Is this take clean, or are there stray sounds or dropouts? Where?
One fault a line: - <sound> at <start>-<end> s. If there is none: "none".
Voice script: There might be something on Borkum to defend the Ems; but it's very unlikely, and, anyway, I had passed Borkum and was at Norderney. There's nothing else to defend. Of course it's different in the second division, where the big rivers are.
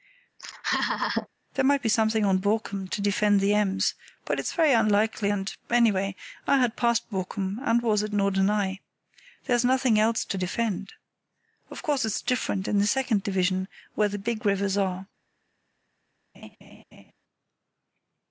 - laugh at 0.4-1.3 s
- laugh at 16.3-17.1 s